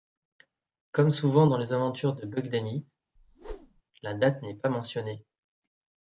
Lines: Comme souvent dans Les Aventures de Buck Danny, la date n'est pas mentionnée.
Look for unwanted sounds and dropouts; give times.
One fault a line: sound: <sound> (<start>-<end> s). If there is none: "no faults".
sound: whoosh (3.2-3.8 s)